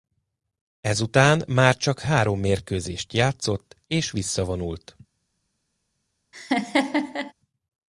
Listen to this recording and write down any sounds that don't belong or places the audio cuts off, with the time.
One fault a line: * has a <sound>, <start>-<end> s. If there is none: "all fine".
* has a laugh, 6.3-7.3 s